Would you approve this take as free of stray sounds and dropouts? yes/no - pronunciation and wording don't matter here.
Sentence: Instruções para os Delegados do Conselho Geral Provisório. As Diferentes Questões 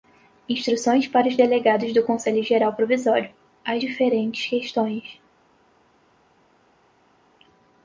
yes